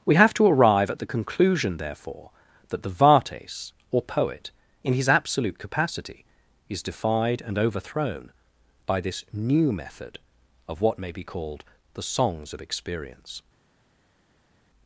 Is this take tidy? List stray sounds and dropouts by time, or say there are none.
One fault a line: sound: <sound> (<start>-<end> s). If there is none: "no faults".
no faults